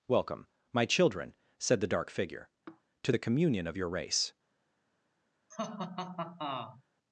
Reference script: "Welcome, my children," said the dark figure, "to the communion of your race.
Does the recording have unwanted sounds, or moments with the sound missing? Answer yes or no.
yes